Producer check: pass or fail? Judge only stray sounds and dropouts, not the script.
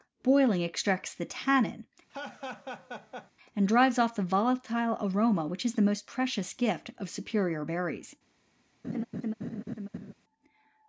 fail